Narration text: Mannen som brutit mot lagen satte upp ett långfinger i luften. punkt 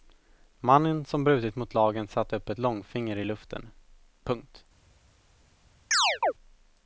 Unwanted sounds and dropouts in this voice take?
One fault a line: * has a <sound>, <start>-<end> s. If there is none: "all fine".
* has a chirp, 5.9-6.3 s